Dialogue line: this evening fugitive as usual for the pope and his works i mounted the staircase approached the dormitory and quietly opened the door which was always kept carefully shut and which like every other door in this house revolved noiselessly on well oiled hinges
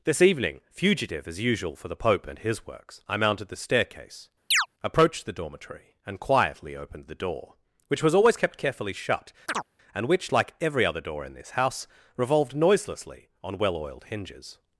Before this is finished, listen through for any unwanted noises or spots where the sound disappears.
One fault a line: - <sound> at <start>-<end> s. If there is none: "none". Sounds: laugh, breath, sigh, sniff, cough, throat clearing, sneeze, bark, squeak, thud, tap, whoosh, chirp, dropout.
- chirp at 4.5-4.7 s
- chirp at 9.5-9.7 s